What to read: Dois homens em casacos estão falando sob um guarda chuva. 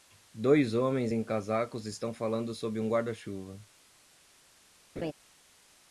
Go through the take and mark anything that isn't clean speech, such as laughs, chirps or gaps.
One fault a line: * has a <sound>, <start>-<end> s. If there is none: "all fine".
* has a laugh, 5.0-5.1 s